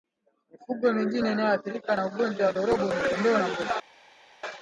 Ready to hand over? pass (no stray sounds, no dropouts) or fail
pass